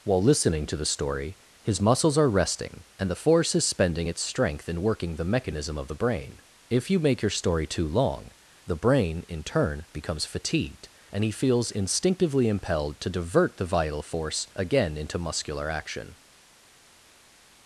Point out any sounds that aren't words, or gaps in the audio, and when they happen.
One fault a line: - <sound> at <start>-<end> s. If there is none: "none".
none